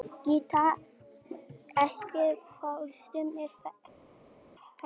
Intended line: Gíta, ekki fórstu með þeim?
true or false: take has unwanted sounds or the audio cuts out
false